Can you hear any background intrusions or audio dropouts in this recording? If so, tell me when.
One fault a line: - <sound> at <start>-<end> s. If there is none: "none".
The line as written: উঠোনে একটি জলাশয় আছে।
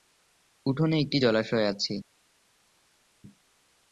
none